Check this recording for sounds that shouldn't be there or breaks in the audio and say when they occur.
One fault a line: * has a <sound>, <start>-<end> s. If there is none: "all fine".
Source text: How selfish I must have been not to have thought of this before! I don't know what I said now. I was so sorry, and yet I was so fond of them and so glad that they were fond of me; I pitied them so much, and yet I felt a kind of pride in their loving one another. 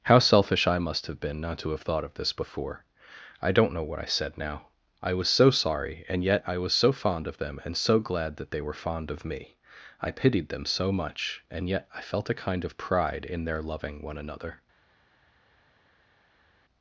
all fine